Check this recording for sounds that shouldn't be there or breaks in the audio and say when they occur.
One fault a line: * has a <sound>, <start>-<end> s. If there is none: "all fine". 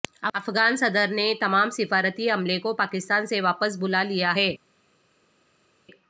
all fine